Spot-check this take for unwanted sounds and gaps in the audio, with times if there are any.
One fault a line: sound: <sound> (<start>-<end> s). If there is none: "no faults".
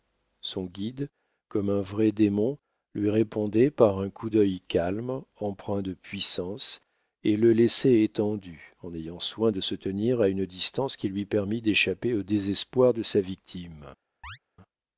sound: chirp (14.2-14.4 s)